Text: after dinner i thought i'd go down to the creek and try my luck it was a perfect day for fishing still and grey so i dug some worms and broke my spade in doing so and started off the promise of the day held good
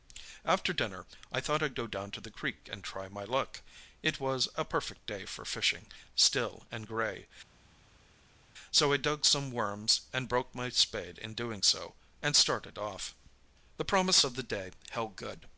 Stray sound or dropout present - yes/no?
no